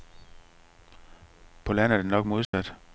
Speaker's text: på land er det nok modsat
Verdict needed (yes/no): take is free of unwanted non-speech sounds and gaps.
no